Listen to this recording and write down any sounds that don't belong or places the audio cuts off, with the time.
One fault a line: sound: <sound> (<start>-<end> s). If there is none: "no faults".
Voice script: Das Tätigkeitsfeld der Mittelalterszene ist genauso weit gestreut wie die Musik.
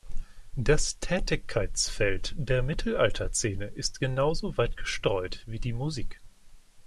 no faults